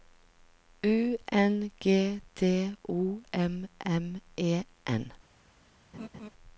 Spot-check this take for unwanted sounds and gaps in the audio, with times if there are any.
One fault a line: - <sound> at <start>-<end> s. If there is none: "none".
- laugh at 5.9-6.3 s